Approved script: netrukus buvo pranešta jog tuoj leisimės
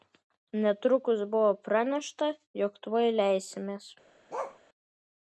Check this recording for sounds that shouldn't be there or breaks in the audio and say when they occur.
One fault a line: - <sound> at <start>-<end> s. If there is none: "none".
- bark at 4.3-4.6 s